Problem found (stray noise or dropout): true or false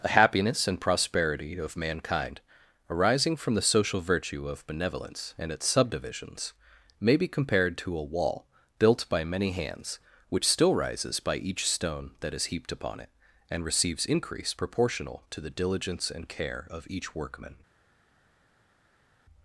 false